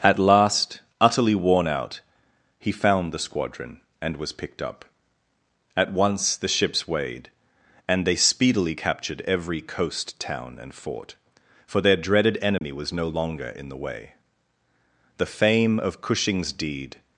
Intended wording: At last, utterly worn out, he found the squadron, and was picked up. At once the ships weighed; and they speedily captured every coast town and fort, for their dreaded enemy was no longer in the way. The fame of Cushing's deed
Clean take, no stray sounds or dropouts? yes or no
no